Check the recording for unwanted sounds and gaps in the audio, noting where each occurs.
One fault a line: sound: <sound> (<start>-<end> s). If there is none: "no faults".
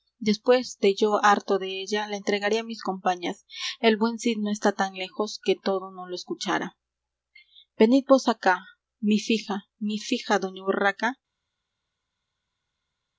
no faults